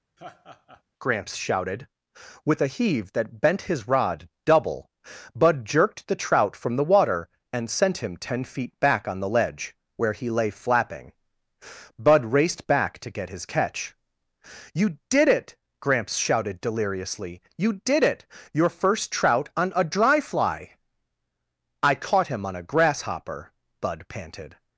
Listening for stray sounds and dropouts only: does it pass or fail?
fail